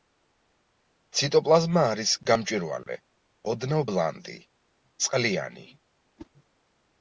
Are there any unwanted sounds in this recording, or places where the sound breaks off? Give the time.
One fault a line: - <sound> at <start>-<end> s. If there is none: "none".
- whoosh at 6.2-6.3 s